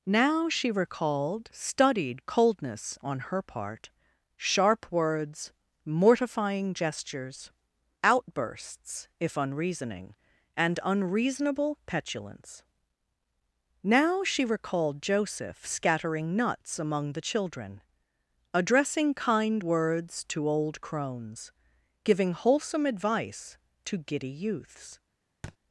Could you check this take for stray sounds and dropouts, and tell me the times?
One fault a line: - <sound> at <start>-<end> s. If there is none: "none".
- thud at 25.4-25.6 s